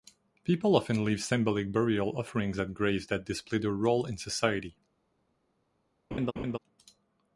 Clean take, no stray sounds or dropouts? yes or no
no